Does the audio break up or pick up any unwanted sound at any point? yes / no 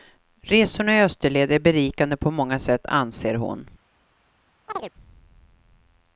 yes